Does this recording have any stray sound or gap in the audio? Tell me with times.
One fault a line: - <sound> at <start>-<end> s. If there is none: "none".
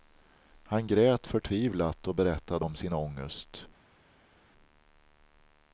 none